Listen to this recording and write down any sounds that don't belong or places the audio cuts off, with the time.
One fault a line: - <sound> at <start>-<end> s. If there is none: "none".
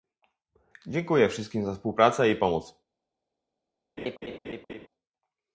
- laugh at 4.0-4.9 s